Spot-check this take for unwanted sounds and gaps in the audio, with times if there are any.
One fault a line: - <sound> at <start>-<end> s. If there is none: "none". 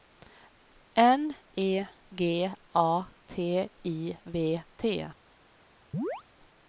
- chirp at 5.9-6.2 s